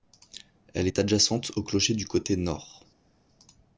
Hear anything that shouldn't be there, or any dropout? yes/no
no